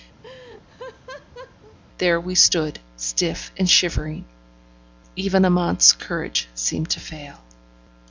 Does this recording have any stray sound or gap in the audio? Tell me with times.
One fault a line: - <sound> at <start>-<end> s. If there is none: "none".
- laugh at 0.2-1.8 s